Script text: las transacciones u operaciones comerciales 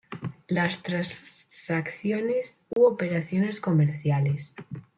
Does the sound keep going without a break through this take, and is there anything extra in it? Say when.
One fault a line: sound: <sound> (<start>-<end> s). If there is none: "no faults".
sound: dropout (2.7-2.8 s)